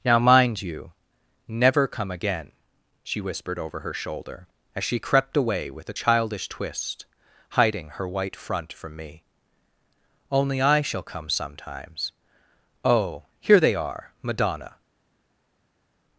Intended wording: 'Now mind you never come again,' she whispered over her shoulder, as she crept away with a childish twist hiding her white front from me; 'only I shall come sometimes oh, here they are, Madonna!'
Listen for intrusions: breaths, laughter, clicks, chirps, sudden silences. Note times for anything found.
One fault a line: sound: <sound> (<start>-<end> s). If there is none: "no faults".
no faults